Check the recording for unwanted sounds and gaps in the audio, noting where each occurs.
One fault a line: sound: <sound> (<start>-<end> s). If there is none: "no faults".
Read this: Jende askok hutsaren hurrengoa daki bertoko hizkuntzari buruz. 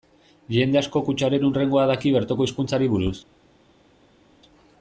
no faults